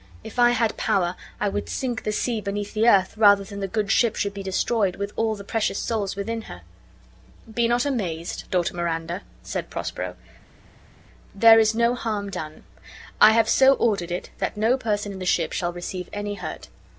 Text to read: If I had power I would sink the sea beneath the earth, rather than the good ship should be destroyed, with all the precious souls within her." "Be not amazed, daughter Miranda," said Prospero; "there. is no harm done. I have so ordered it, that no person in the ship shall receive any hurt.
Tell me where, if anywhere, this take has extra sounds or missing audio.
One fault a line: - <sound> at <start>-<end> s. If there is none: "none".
none